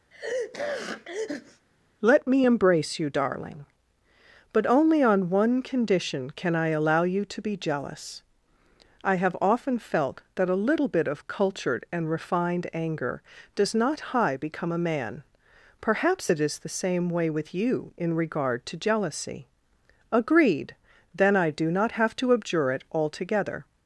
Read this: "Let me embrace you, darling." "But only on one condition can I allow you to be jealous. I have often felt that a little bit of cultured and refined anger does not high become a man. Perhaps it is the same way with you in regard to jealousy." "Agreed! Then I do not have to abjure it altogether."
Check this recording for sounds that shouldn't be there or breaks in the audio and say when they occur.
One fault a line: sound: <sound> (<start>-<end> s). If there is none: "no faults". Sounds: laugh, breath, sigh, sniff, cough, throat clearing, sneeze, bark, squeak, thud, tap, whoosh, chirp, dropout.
sound: sneeze (0.1-1.7 s)